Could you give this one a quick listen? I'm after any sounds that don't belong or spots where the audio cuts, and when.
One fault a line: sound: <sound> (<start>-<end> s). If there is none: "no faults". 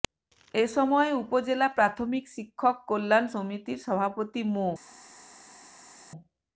no faults